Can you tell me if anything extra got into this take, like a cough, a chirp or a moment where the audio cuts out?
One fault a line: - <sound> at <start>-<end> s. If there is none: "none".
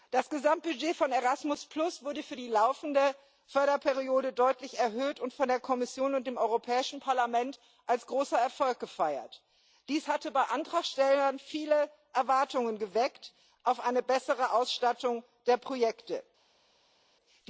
none